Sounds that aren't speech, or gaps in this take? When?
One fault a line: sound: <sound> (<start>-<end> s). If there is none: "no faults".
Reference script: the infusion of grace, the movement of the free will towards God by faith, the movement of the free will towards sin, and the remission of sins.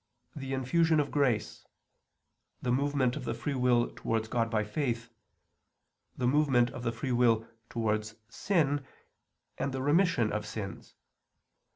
no faults